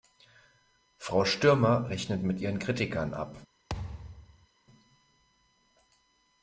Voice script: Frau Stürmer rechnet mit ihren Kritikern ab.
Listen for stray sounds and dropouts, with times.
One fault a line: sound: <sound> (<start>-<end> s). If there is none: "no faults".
sound: thud (3.7-4.5 s)